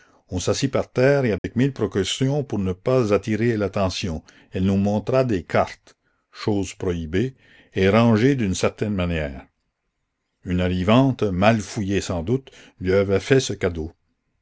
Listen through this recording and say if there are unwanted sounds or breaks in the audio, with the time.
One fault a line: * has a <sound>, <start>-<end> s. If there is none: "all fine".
* has a dropout, 1.4-1.4 s